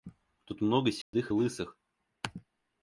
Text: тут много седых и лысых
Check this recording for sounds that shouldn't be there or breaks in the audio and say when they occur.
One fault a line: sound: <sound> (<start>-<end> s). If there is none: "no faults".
sound: dropout (1.0-1.1 s)